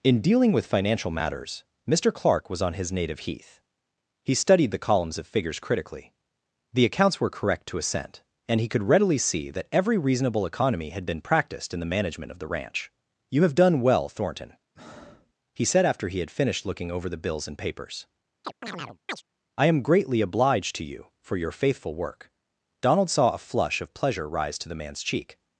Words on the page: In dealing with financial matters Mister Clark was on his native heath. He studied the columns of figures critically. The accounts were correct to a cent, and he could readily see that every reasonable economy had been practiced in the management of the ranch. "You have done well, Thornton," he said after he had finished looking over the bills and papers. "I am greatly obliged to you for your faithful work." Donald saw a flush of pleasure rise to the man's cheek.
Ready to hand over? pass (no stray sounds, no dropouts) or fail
fail